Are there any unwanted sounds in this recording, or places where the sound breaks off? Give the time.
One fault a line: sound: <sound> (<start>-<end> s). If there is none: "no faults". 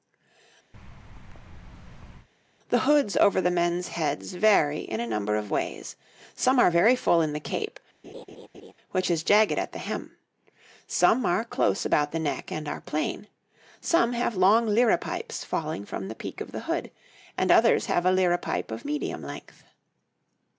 sound: thud (0.7-2.3 s)
sound: laugh (8.0-8.7 s)